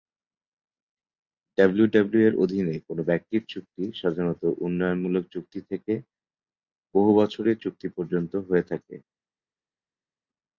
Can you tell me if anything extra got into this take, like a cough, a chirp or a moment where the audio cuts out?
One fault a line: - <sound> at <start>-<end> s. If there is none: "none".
none